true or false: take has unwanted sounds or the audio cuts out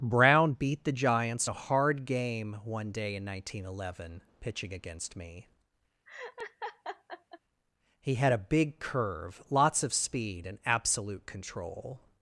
true